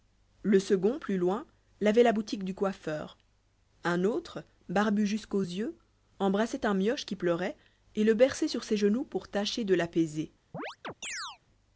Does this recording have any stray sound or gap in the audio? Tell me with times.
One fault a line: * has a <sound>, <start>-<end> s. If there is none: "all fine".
* has a chirp, 10.5-11.4 s